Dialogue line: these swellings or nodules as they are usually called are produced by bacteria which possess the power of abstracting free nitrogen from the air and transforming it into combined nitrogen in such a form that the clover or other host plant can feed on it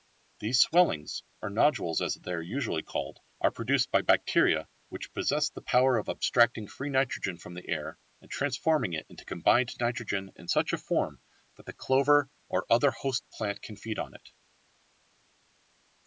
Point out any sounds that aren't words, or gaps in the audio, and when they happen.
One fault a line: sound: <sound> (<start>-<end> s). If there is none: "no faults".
no faults